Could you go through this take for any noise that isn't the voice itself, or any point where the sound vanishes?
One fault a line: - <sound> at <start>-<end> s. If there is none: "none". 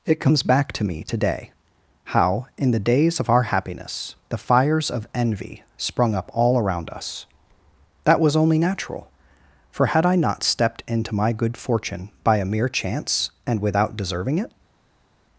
none